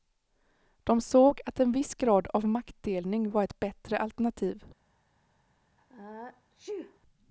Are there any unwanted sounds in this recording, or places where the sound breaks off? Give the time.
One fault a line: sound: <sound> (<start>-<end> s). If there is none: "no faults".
sound: sneeze (5.8-7.0 s)